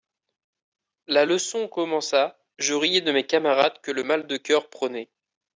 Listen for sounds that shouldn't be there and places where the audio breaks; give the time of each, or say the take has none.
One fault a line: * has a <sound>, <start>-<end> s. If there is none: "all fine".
all fine